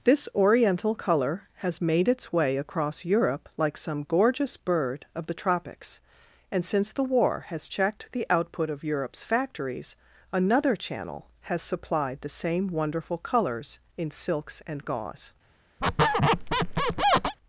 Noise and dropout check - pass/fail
fail